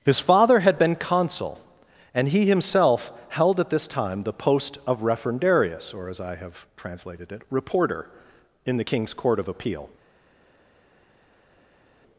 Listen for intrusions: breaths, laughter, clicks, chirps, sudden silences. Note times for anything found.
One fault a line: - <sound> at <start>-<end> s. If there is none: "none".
none